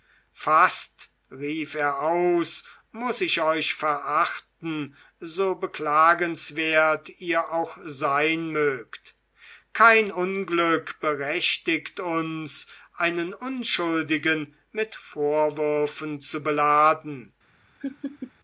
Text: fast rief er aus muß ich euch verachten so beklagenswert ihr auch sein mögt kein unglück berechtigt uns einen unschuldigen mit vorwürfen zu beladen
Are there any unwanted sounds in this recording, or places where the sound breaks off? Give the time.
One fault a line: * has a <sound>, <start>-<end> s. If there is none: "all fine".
* has a laugh, 17.8-18.3 s